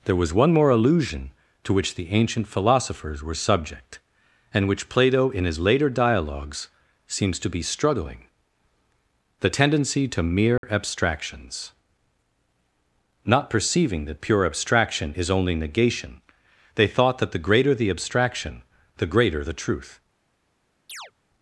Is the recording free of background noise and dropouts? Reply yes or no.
no